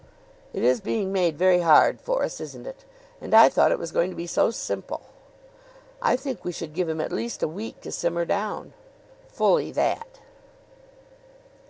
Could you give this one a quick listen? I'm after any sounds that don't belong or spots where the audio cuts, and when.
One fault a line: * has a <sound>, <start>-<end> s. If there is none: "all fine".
all fine